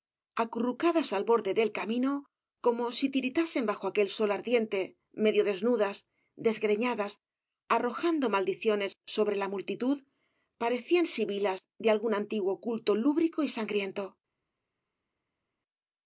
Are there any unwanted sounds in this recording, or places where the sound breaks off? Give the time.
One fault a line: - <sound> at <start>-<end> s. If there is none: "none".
none